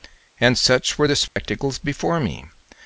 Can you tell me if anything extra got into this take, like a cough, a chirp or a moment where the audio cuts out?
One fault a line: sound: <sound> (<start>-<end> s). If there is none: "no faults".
sound: dropout (1.3-1.4 s)